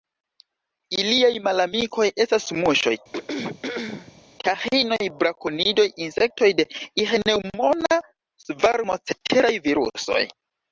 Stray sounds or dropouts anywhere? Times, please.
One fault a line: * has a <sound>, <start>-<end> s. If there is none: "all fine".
* has a throat clearing, 3.1-4.2 s